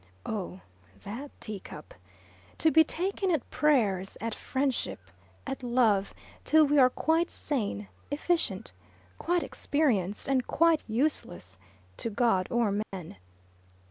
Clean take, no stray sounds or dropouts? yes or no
no